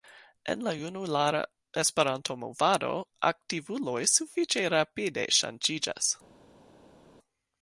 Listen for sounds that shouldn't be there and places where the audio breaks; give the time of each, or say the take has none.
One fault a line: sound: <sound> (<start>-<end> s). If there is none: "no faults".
no faults